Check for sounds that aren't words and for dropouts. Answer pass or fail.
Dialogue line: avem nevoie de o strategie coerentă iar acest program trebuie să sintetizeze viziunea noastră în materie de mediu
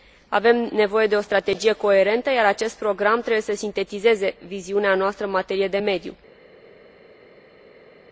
pass